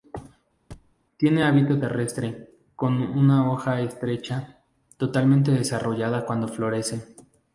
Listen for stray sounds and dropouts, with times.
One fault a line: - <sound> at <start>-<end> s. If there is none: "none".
- thud at 0.7-1.0 s